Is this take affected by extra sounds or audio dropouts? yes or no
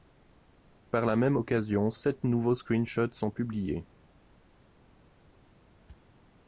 no